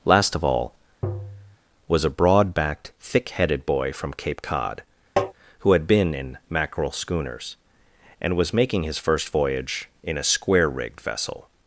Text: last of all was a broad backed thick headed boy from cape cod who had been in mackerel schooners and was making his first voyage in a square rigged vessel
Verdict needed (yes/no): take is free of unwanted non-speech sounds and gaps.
no